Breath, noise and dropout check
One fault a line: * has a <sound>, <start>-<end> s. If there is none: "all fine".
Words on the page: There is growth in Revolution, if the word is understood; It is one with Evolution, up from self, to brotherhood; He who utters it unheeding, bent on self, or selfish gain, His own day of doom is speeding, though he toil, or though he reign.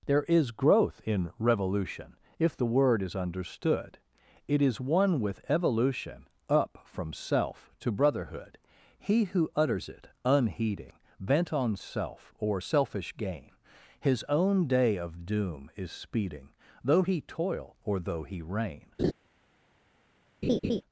* has a laugh, 19.0-19.1 s
* has a laugh, 20.4-20.8 s